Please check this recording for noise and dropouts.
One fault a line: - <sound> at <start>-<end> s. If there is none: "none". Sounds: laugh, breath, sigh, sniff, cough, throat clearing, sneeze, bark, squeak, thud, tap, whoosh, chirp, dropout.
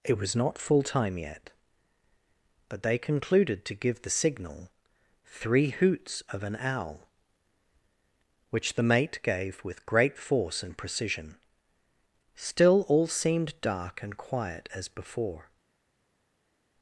none